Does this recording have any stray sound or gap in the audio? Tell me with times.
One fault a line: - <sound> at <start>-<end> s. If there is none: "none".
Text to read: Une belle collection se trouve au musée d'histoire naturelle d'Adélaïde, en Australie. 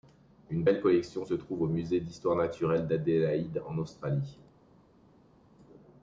none